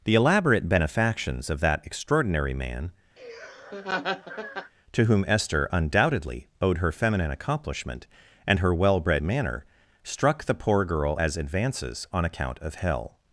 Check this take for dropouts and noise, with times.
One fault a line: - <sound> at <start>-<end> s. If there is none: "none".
- laugh at 3.2-4.7 s